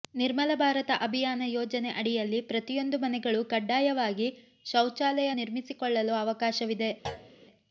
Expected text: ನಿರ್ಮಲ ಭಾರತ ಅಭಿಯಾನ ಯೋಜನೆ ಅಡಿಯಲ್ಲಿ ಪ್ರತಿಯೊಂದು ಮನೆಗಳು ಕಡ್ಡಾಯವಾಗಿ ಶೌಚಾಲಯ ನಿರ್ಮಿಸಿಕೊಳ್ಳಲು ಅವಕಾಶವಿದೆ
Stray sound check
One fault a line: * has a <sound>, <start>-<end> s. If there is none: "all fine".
* has a thud, 7.0-7.3 s